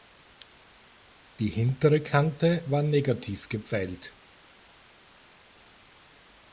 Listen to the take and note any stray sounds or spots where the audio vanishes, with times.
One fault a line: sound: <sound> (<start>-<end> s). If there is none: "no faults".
no faults